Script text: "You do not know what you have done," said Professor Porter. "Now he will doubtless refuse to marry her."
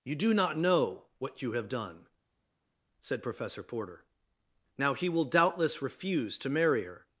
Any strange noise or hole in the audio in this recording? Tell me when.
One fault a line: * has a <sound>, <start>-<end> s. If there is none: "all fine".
all fine